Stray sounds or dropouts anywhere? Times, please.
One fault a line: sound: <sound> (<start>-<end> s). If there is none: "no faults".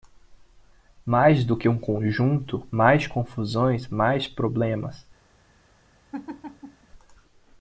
sound: laugh (6.1-6.9 s)